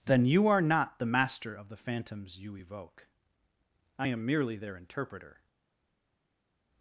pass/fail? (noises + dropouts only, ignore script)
pass